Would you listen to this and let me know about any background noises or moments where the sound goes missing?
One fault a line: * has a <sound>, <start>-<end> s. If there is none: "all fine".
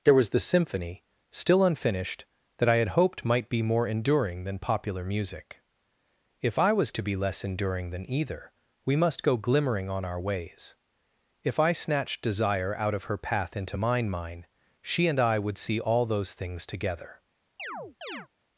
* has a chirp, 17.6-18.3 s